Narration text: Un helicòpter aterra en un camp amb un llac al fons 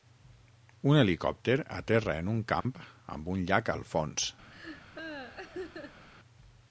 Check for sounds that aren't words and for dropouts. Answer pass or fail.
fail